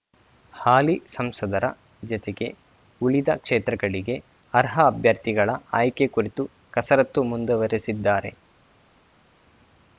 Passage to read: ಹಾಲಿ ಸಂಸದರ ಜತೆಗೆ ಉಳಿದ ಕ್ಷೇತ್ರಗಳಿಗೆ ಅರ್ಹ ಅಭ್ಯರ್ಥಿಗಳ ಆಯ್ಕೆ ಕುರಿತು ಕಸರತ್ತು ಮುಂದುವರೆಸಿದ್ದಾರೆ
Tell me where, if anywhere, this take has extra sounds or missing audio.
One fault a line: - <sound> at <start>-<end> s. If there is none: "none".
none